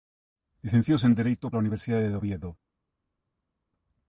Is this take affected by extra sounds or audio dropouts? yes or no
no